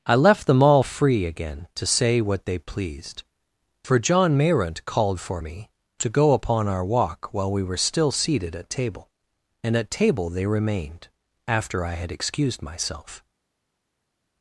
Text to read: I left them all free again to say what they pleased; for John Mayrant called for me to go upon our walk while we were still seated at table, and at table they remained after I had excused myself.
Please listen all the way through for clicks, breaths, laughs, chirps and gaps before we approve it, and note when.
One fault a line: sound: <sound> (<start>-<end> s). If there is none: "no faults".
no faults